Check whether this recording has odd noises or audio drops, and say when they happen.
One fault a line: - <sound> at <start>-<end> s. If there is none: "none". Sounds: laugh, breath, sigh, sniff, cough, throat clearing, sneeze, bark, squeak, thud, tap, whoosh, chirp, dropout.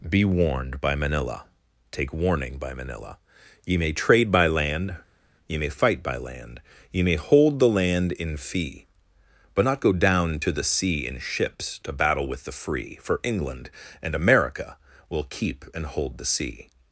none